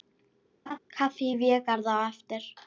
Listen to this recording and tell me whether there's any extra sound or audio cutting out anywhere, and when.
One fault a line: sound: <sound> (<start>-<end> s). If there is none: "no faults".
sound: laugh (0.7-0.8 s)